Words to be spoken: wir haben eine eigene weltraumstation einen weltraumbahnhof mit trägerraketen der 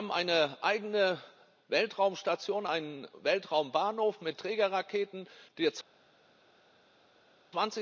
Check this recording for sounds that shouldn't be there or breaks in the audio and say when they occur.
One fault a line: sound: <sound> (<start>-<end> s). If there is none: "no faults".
no faults